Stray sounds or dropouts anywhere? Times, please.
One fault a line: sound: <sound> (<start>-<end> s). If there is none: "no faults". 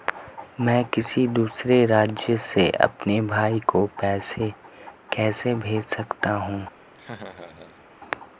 sound: laugh (6.9-7.8 s)